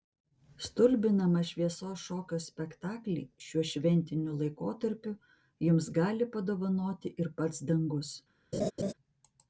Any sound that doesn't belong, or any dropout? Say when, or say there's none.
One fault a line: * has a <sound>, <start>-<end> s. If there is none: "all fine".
* has a laugh, 8.5-8.9 s